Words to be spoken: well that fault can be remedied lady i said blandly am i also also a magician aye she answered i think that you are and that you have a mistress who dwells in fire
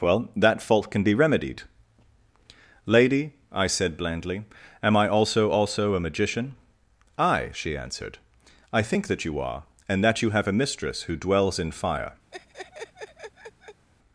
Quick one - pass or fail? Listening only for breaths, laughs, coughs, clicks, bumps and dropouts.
fail